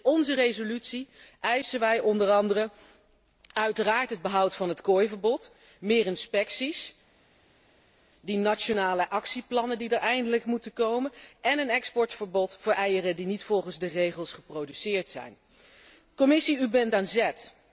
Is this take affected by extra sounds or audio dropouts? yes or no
no